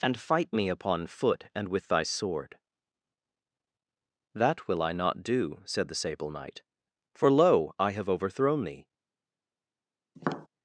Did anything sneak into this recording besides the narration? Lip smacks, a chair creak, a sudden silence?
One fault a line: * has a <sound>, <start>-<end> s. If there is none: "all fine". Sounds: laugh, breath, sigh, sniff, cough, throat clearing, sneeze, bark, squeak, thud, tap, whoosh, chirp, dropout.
* has a tap, 10.2-10.5 s